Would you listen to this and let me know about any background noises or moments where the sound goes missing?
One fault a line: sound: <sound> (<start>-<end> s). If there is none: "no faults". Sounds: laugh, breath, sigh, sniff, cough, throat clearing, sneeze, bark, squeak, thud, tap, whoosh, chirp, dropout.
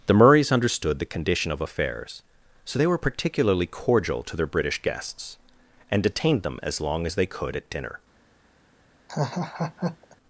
sound: laugh (9.1-10.2 s)